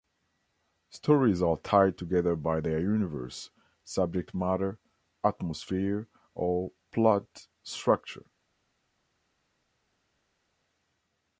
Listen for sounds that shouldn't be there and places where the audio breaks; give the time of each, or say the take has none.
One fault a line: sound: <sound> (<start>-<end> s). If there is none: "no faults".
no faults